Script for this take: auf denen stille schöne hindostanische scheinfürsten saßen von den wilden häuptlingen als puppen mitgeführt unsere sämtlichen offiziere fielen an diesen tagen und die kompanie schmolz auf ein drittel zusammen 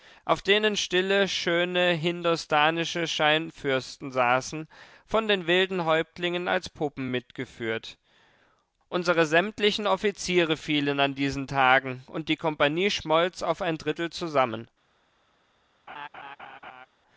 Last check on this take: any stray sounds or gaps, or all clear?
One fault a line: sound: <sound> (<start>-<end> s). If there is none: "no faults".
sound: laugh (15.9-16.9 s)